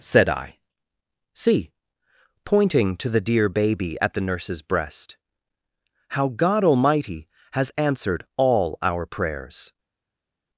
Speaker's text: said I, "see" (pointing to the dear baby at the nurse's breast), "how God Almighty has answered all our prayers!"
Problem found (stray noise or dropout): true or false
false